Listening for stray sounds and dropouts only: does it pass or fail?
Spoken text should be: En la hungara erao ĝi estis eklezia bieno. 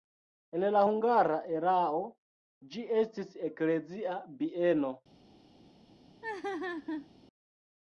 fail